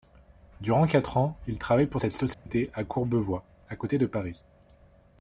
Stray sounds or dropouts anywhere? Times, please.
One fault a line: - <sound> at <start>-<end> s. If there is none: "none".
- dropout at 2.3-2.5 s